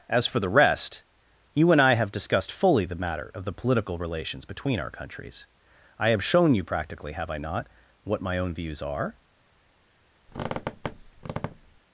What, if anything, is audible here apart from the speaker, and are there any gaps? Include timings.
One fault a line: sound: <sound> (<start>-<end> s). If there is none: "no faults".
sound: squeak (10.3-11.8 s)